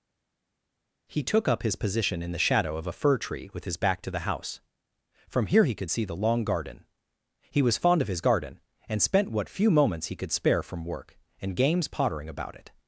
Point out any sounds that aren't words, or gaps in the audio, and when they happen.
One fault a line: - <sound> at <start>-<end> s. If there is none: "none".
none